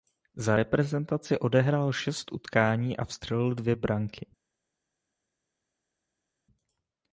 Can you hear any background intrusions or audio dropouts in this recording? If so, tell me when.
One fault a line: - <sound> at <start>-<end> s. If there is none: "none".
none